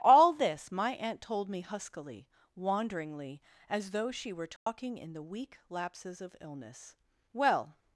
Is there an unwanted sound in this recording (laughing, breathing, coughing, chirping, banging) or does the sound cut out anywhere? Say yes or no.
yes